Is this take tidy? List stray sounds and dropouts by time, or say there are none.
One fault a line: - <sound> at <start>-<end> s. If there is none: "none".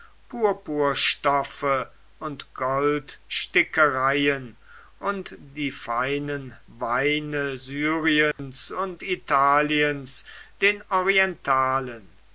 - dropout at 8.3-8.4 s